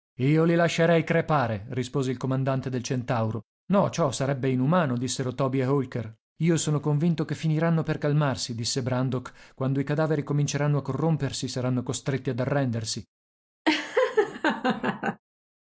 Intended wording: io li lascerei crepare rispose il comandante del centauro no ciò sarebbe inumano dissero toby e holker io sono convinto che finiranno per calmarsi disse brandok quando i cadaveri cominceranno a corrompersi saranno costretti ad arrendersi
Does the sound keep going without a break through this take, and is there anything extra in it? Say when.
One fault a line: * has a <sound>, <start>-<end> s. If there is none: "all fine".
* has a laugh, 13.7-15.2 s